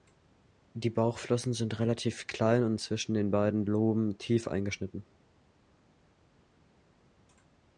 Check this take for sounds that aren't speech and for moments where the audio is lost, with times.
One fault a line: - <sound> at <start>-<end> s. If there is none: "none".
none